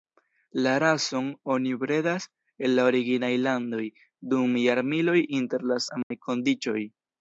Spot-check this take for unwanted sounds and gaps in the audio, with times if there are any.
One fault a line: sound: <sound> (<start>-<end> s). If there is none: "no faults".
sound: dropout (6.0-6.1 s)